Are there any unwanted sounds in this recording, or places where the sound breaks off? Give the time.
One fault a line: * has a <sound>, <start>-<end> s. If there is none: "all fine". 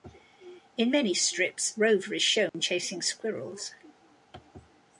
* has a dropout, 2.5-2.5 s